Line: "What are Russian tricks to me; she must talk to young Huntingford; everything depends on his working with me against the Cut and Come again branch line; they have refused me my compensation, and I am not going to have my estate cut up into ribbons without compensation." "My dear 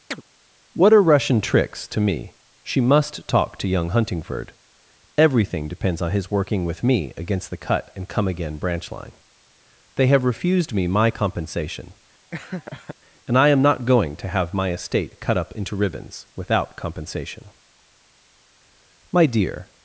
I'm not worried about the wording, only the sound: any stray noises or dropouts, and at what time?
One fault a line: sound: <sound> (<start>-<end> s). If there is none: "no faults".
sound: chirp (0.1-0.2 s)
sound: laugh (12.3-13.0 s)